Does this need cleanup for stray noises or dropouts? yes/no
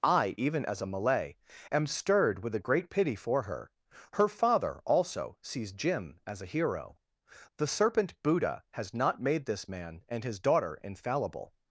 no